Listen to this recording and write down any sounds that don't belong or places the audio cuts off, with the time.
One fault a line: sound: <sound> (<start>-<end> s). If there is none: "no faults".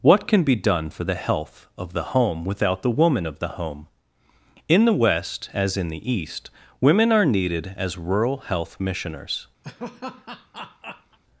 sound: laugh (9.6-11.2 s)